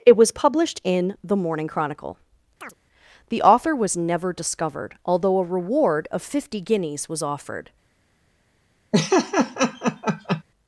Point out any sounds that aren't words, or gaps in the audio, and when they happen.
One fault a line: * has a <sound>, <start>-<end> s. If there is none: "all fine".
* has a chirp, 2.6-2.7 s
* has a laugh, 8.9-10.4 s